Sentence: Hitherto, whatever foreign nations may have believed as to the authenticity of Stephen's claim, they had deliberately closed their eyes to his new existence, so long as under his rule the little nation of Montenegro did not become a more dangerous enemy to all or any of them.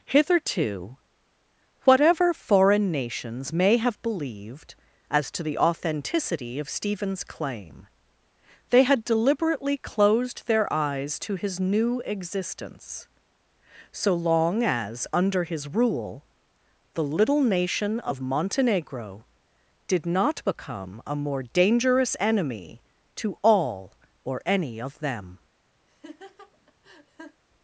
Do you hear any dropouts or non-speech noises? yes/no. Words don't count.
yes